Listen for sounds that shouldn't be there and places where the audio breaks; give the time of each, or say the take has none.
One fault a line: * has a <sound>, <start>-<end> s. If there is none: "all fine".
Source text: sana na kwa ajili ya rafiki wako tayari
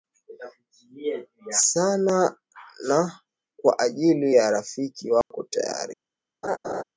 * has a dropout, 5.2-5.3 s
* has a laugh, 6.4-6.8 s